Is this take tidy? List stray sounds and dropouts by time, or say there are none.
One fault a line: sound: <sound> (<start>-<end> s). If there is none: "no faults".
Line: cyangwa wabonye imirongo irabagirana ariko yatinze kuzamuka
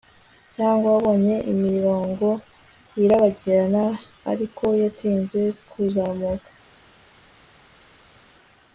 no faults